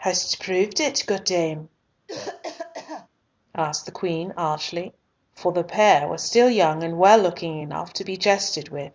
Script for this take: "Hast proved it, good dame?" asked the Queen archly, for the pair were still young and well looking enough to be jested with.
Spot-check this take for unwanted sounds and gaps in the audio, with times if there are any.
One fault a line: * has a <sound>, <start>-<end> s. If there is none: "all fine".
* has a cough, 2.1-3.1 s